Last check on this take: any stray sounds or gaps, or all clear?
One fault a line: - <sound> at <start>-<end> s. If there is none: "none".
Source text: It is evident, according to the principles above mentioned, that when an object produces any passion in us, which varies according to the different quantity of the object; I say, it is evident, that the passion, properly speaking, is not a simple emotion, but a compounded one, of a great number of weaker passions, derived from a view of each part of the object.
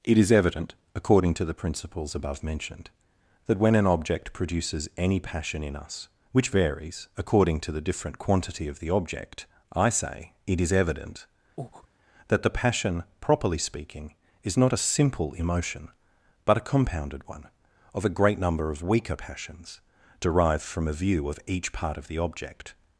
- breath at 11.6-11.9 s